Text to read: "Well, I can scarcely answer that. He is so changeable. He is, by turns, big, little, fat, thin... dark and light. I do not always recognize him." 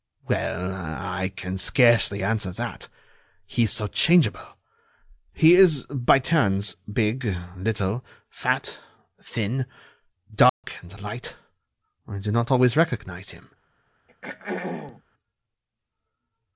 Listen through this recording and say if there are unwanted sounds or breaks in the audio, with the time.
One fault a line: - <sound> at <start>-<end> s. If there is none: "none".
- dropout at 10.5-10.6 s
- throat clearing at 14.1-15.0 s